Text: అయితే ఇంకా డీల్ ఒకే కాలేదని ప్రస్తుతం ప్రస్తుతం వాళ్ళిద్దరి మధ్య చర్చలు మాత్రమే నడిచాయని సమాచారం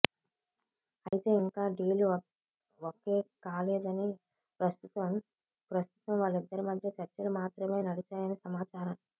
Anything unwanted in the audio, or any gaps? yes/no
yes